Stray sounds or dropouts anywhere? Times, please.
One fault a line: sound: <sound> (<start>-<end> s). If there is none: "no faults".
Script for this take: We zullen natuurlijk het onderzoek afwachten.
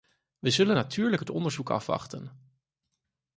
no faults